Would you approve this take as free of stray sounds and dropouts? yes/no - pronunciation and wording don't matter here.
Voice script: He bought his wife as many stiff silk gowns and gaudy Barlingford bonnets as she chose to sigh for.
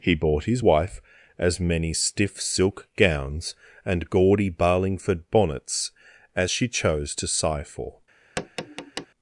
no